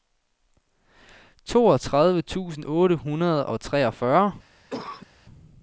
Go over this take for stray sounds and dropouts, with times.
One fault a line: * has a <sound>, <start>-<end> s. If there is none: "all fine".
* has a cough, 4.7-5.1 s